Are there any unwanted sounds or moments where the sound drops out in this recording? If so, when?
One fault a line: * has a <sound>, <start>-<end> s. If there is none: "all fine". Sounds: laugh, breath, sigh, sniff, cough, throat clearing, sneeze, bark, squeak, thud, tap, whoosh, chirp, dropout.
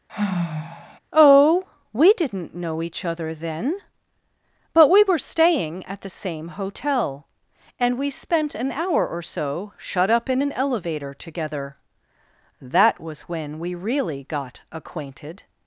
* has a sigh, 0.1-1.0 s